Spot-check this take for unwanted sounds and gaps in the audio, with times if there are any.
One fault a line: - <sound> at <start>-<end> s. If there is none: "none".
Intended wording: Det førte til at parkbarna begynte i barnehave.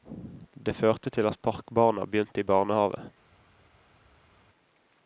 none